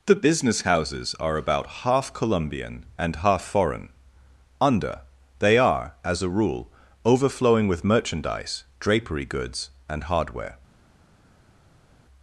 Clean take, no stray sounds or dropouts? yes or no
yes